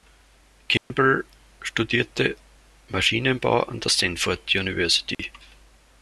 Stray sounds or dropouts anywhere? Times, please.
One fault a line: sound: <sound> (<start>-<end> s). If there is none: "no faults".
sound: dropout (0.8-0.9 s)
sound: dropout (5.1-5.2 s)